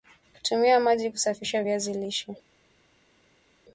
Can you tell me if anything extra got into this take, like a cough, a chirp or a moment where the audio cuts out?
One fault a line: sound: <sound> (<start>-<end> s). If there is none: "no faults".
no faults